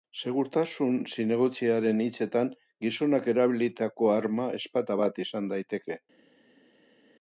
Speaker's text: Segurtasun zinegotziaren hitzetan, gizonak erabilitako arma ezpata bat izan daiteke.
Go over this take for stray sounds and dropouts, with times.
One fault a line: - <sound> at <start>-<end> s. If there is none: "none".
none